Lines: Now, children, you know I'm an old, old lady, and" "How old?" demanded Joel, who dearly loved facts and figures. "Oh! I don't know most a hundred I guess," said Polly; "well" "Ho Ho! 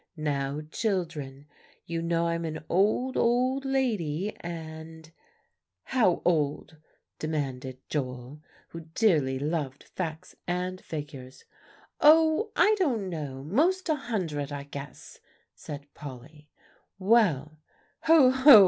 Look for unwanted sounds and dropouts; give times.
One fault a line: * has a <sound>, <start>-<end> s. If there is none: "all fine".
all fine